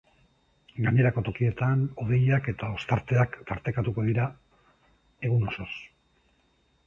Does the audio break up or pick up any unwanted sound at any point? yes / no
no